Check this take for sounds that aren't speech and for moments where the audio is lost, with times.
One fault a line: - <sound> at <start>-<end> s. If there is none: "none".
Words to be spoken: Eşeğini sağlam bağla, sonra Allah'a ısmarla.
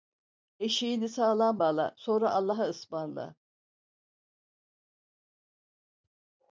none